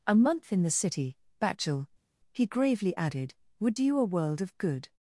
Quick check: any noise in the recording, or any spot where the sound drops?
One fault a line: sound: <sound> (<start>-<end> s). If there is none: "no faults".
no faults